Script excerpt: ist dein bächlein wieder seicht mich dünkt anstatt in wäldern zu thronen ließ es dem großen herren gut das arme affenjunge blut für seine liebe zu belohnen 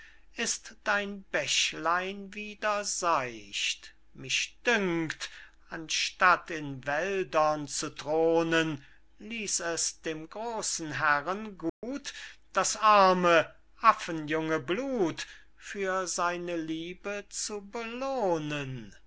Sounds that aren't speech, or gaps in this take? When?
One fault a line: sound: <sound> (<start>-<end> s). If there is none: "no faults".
sound: dropout (11.7-11.8 s)